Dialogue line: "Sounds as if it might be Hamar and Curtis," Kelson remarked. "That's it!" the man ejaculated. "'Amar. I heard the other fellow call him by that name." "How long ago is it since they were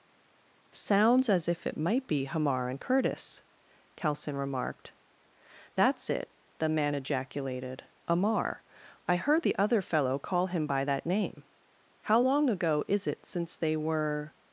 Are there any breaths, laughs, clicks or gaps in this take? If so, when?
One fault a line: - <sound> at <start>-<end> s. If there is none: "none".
none